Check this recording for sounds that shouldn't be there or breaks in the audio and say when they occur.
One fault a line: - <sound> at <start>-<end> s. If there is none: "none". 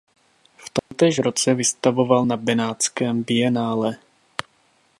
- dropout at 0.8-0.9 s